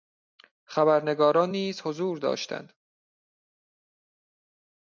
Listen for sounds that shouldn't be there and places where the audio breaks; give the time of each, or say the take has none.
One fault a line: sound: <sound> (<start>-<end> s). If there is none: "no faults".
no faults